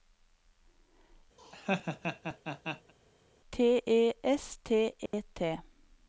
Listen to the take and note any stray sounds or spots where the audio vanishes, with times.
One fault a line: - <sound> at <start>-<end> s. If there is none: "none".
- laugh at 1.4-2.9 s
- dropout at 5.1-5.1 s